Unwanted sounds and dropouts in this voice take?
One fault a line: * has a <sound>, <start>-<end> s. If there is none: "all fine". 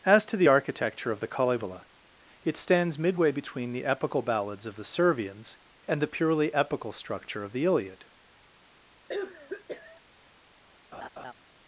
* has a cough, 9.1-10.0 s
* has a laugh, 10.9-11.3 s